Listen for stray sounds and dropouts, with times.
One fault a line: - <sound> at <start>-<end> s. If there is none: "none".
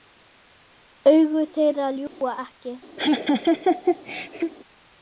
- dropout at 2.1-2.2 s
- laugh at 3.0-4.5 s